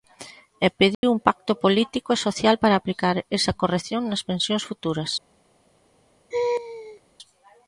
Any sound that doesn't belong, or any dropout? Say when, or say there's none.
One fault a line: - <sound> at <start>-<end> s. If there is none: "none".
- dropout at 0.9-1.0 s
- laugh at 6.3-7.0 s